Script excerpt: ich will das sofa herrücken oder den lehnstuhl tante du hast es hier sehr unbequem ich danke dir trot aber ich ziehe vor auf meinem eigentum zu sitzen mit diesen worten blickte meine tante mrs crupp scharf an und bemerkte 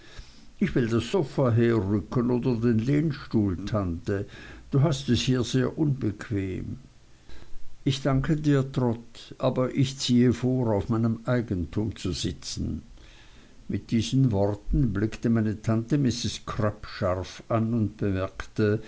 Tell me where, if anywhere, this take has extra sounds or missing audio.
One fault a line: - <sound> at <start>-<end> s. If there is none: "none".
none